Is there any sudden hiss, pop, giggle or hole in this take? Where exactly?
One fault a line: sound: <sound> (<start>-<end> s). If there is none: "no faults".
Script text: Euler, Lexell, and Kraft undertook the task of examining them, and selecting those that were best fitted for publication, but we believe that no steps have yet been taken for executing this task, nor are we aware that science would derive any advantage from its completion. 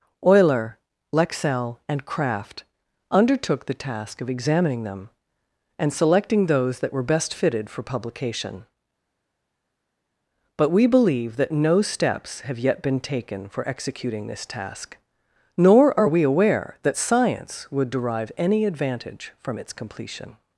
no faults